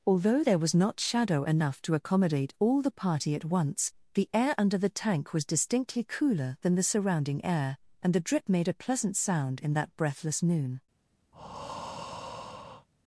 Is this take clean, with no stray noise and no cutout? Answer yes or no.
no